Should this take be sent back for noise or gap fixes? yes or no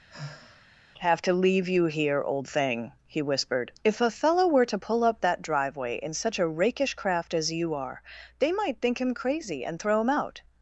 yes